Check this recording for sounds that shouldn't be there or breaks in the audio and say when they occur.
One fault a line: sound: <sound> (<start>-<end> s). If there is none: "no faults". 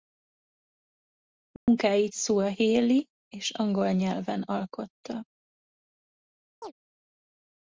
sound: dropout (1.6-1.7 s)
sound: chirp (6.6-6.7 s)